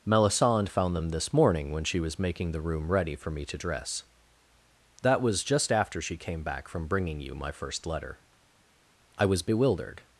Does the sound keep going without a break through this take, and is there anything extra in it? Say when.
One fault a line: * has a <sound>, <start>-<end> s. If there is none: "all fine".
all fine